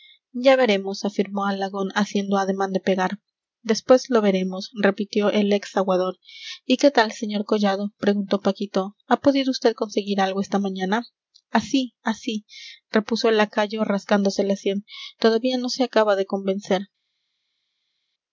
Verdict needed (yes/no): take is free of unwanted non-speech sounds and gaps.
yes